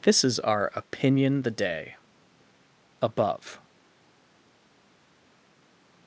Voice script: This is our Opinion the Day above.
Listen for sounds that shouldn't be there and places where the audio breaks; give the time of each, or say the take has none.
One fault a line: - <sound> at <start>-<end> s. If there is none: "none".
none